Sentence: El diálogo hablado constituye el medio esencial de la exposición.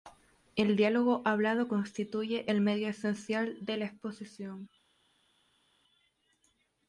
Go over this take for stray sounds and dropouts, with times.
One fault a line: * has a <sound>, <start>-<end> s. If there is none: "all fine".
all fine